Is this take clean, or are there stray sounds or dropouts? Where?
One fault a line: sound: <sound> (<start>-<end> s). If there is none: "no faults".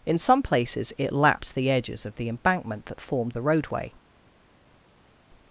no faults